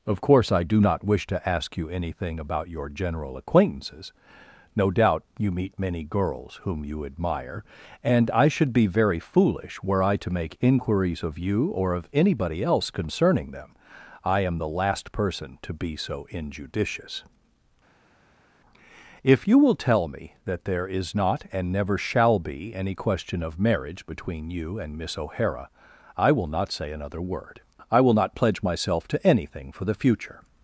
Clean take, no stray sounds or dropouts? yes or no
yes